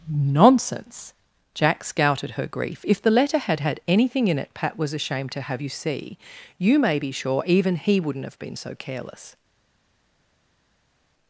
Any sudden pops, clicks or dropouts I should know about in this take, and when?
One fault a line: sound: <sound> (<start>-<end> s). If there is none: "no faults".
no faults